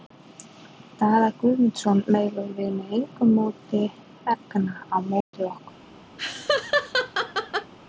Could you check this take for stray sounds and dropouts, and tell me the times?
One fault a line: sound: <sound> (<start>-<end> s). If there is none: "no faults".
sound: dropout (5.2-5.3 s)
sound: laugh (6.2-7.7 s)